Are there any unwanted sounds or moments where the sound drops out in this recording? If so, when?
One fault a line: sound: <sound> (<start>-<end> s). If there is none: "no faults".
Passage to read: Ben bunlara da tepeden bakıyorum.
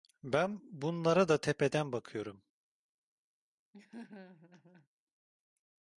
sound: laugh (3.7-4.9 s)